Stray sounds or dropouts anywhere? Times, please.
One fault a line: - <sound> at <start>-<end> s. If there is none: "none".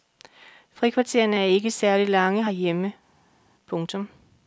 none